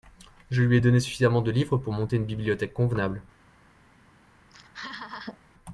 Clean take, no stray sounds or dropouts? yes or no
no